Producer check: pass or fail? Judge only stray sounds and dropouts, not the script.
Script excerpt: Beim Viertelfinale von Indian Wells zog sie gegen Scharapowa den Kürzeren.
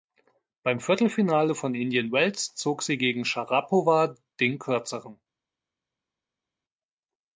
pass